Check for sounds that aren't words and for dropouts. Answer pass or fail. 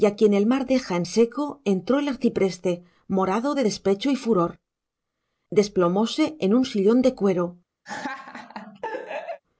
fail